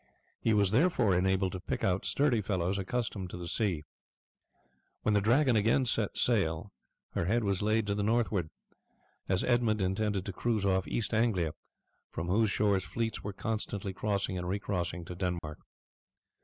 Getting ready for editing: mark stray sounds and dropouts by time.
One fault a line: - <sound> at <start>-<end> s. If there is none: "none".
- dropout at 15.4-15.4 s